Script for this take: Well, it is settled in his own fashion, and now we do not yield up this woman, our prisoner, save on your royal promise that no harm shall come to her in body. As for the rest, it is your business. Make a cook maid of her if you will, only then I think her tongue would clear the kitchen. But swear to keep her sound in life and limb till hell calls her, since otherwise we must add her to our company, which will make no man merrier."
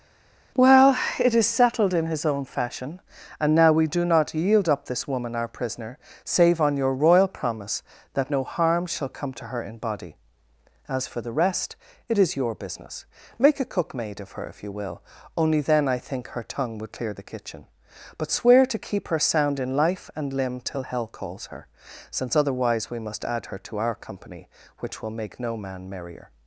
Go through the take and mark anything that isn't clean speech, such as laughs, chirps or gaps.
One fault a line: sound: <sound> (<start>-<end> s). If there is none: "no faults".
no faults